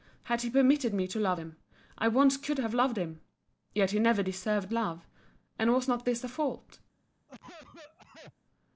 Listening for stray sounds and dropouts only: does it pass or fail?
fail